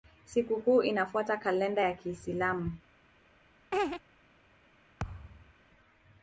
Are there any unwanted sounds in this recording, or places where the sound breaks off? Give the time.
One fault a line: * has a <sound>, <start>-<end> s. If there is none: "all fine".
* has a laugh, 3.7-4.0 s
* has a thud, 5.0-5.5 s